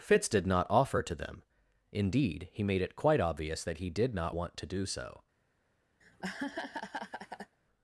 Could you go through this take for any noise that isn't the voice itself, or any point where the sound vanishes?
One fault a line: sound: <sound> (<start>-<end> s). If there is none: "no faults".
sound: laugh (6.0-7.6 s)